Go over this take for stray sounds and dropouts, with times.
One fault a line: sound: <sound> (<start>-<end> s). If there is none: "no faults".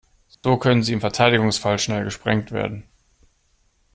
sound: dropout (0.3-0.4 s)